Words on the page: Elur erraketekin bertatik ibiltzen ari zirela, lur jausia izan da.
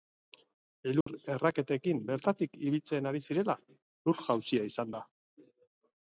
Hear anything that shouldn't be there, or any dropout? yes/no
yes